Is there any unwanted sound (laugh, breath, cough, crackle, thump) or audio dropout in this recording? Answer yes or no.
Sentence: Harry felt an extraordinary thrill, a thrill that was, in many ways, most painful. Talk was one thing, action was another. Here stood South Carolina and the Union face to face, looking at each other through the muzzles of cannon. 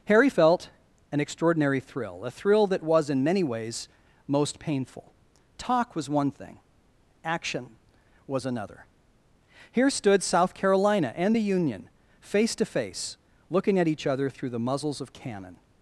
no